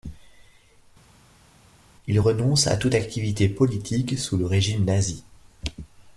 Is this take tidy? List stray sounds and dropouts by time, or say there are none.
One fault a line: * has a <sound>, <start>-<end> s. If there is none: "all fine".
all fine